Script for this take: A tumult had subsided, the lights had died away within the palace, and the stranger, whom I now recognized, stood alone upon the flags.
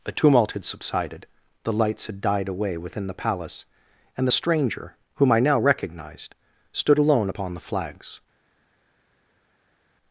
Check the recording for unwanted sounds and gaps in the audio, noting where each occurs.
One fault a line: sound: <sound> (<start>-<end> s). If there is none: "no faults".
no faults